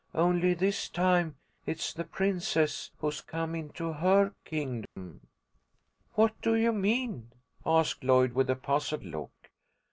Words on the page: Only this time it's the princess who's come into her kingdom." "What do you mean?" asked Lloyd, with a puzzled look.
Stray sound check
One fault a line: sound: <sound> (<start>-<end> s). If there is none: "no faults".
sound: dropout (4.9-5.0 s)